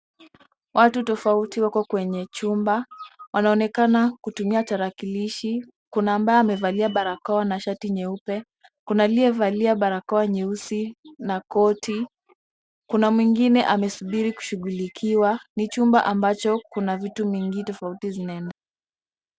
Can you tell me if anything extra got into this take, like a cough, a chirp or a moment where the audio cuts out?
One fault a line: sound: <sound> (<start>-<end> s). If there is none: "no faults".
no faults